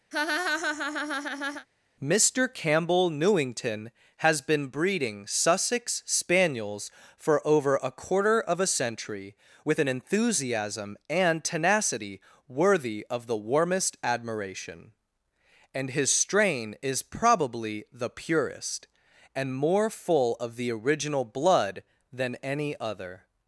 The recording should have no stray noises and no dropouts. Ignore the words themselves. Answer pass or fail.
fail